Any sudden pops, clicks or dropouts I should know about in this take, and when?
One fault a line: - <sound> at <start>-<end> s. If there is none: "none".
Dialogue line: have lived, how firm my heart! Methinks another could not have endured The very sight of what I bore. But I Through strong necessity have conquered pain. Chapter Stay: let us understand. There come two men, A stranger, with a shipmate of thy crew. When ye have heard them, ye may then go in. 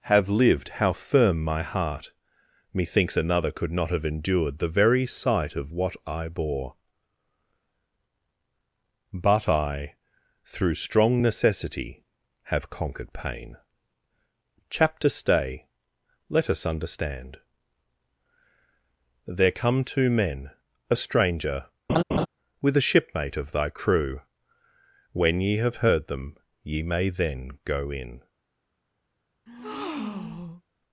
- laugh at 21.9-22.3 s
- breath at 29.5-30.6 s